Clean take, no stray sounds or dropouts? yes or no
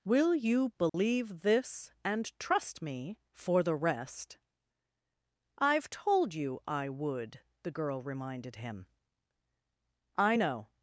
no